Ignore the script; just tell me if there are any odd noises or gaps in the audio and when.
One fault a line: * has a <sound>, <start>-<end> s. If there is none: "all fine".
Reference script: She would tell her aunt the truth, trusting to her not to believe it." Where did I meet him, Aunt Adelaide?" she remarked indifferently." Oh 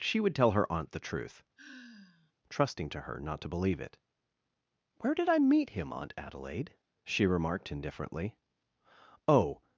* has a sigh, 1.6-2.3 s